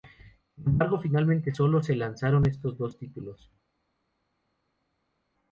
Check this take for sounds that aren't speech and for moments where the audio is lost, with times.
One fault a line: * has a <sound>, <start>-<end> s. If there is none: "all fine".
all fine